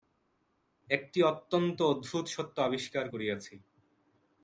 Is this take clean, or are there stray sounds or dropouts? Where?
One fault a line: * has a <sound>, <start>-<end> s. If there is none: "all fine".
all fine